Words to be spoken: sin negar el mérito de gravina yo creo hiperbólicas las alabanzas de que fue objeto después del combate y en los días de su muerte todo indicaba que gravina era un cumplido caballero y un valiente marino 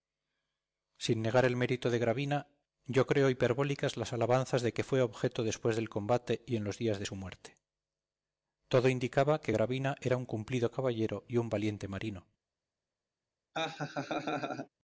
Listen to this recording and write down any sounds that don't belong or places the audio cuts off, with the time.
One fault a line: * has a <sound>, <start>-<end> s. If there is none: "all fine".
* has a laugh, 13.5-14.7 s